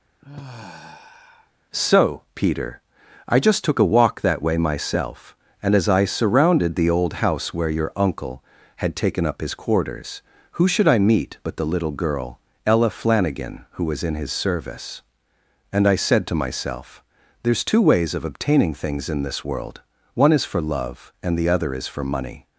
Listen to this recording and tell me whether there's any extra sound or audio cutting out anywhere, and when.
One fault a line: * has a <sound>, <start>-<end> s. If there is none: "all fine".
* has a sigh, 0.2-1.5 s